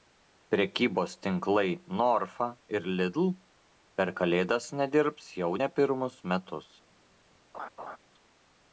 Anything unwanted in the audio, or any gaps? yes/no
yes